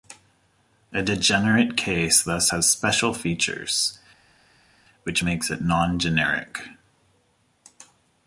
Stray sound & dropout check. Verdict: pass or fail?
pass